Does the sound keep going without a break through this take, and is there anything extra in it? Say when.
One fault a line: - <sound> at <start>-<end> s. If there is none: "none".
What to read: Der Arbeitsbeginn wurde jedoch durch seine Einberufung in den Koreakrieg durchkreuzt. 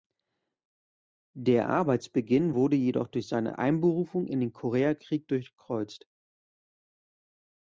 none